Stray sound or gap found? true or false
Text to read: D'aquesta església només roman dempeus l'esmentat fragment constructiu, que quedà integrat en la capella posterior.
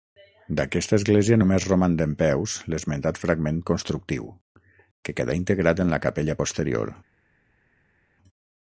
false